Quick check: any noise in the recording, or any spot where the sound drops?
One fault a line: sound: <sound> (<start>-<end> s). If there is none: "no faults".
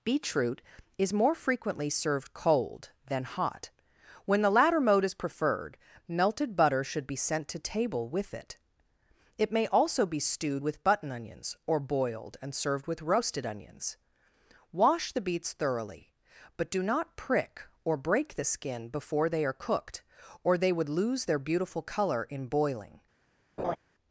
sound: laugh (23.6-23.8 s)